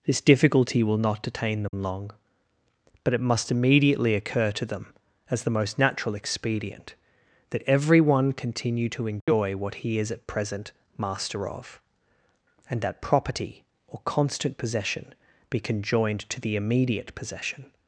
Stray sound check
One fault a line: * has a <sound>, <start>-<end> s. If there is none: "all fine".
* has a dropout, 1.7-1.7 s
* has a dropout, 9.2-9.3 s